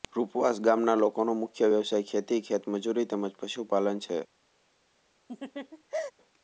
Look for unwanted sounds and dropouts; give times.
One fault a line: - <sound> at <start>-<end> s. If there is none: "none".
- laugh at 5.3-6.1 s